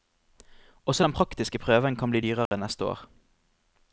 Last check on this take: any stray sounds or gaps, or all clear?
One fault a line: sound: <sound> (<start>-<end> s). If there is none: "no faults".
sound: dropout (2.5-2.5 s)